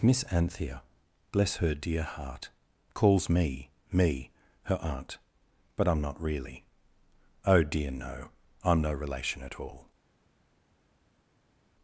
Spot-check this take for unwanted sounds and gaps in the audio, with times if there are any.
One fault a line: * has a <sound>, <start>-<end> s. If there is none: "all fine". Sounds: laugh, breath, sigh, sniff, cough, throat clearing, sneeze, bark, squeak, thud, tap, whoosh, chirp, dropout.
all fine